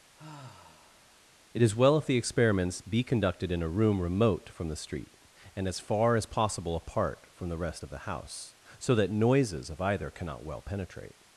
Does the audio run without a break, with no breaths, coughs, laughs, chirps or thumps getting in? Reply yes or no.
no